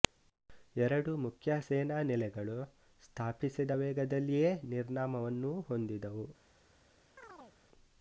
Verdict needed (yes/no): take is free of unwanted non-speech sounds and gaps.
no